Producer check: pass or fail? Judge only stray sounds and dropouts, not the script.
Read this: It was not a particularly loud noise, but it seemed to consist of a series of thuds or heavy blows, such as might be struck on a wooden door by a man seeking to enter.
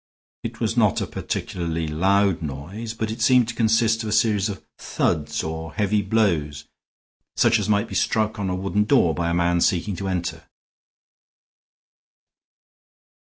pass